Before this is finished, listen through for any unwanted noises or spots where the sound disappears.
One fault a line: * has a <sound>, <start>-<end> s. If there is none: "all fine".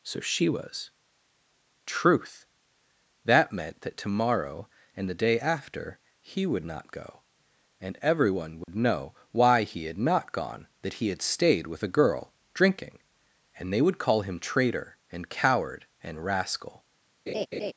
* has a dropout, 8.6-8.7 s
* has a laugh, 17.3-17.7 s